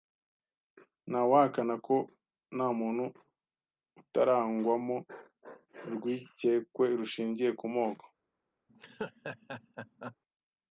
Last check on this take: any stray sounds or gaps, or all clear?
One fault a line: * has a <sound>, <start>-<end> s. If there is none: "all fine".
* has a laugh, 8.7-10.2 s